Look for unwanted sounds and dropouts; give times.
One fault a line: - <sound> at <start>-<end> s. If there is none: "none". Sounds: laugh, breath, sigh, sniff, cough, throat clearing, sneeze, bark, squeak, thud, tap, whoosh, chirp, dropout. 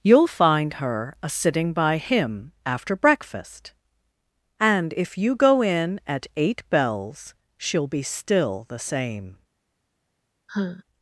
- sigh at 10.5-10.8 s